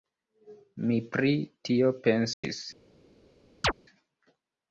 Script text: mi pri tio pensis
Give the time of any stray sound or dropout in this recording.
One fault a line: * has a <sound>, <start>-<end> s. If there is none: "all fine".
* has a dropout, 2.3-2.4 s
* has a chirp, 3.6-3.7 s